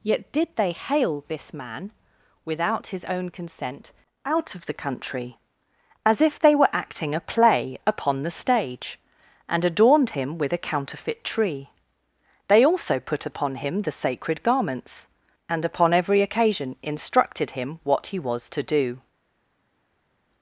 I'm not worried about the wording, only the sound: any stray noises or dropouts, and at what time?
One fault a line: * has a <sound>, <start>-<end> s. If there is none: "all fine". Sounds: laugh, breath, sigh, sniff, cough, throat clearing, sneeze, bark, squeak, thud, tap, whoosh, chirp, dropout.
all fine